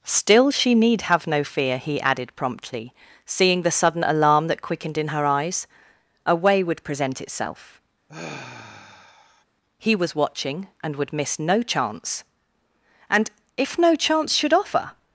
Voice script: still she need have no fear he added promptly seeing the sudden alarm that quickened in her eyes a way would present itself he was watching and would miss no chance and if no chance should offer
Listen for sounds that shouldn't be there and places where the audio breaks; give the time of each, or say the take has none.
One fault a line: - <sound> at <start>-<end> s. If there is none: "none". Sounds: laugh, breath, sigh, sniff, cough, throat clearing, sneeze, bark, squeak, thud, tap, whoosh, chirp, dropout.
- sigh at 8.1-9.4 s